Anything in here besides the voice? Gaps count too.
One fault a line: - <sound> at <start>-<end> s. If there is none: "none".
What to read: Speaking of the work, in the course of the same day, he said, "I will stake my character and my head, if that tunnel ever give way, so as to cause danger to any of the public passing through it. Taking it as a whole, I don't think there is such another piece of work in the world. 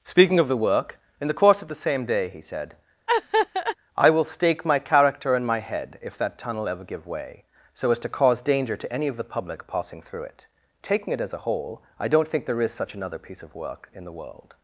- laugh at 3.1-3.8 s